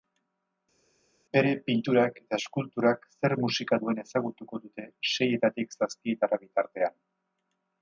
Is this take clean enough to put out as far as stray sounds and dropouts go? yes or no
yes